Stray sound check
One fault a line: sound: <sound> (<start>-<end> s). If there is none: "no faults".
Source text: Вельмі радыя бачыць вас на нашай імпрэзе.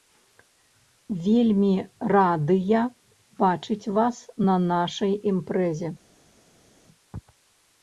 no faults